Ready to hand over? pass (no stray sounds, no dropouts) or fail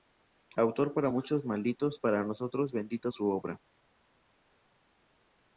pass